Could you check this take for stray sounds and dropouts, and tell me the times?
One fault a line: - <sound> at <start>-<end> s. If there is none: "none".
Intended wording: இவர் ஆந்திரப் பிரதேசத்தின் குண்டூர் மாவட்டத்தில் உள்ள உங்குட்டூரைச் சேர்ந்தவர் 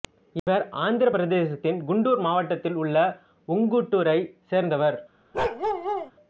- dropout at 0.4-0.5 s
- bark at 5.3-6.1 s